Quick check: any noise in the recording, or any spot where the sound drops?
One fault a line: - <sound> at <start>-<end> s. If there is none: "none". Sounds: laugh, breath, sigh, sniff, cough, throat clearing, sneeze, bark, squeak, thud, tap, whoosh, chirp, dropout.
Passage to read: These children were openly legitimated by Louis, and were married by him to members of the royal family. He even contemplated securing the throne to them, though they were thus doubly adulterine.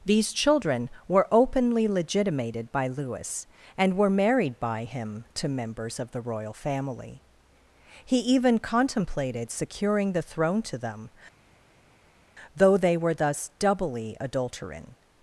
none